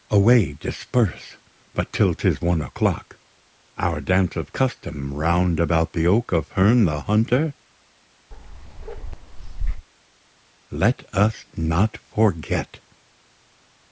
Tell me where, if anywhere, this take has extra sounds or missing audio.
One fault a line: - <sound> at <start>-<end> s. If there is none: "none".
- bark at 8.3-9.9 s